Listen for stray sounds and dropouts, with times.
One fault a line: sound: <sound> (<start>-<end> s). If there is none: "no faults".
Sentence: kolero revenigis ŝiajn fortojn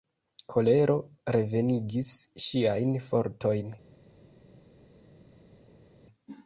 no faults